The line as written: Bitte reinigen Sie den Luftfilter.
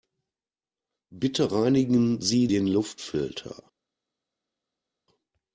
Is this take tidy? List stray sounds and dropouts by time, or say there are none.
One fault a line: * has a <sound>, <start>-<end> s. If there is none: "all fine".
all fine